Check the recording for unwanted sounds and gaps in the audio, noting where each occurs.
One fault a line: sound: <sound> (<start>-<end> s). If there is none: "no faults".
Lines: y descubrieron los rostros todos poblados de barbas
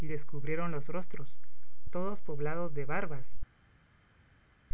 no faults